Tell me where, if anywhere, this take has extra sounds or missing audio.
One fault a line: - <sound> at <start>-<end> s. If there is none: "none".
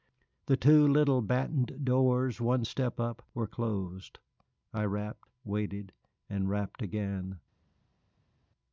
none